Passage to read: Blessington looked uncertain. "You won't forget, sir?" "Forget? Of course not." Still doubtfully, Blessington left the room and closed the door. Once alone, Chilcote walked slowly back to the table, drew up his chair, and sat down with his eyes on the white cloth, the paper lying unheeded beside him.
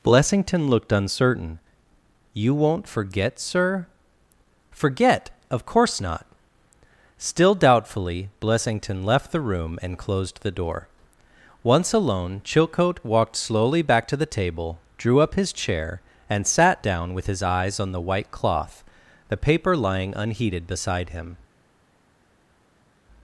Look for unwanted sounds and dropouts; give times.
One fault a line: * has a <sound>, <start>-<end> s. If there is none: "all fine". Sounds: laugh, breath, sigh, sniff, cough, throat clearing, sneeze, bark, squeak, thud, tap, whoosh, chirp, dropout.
all fine